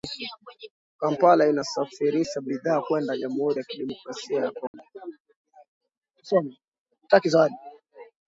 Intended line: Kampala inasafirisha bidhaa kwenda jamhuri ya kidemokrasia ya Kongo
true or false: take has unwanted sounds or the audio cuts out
true